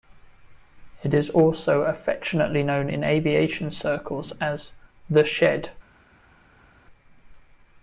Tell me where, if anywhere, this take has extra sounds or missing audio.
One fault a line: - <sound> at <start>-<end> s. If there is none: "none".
none